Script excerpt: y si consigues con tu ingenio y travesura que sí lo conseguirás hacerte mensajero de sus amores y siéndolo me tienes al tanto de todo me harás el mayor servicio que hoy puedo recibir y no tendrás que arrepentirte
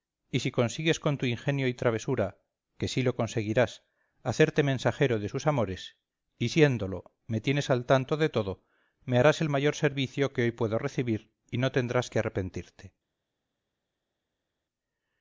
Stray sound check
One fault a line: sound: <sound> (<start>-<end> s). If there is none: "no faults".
no faults